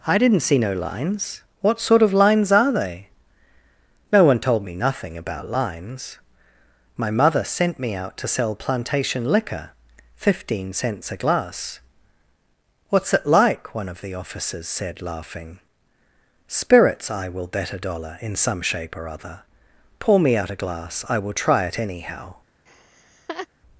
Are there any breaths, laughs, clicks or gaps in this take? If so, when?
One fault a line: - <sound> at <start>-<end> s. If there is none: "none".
- laugh at 22.7-23.5 s